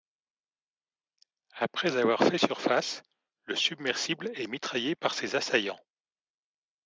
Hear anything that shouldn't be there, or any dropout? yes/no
no